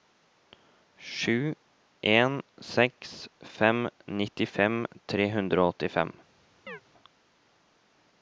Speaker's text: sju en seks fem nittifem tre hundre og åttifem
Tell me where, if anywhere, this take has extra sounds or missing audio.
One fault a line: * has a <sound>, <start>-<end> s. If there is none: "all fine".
* has a chirp, 6.7-6.8 s